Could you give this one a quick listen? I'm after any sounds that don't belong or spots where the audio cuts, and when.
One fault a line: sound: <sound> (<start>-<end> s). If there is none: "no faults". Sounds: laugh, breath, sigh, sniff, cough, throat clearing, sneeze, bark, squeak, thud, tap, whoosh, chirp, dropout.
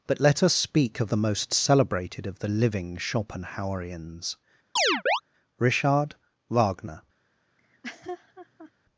sound: chirp (4.8-5.2 s)
sound: laugh (7.6-8.7 s)